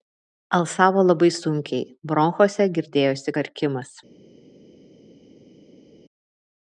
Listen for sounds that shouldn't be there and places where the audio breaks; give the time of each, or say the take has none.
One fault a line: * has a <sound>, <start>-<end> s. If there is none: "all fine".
all fine